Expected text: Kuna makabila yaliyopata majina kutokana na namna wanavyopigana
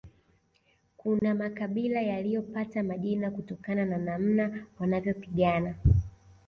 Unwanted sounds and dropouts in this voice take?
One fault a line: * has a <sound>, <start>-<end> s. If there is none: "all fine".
* has a dropout, 1.2-1.2 s